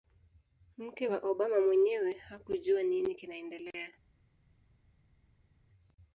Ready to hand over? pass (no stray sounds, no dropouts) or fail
pass